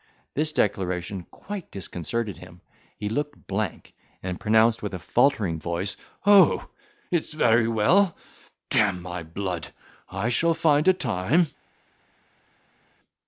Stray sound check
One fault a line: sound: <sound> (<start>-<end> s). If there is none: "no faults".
no faults